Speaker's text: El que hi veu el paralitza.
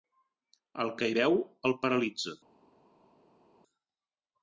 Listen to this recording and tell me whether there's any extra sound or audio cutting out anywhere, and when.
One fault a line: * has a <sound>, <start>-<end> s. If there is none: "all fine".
all fine